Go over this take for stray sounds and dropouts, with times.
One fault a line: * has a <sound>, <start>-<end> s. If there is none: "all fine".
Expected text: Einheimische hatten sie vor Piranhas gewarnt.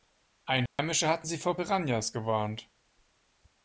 * has a dropout, 0.7-0.8 s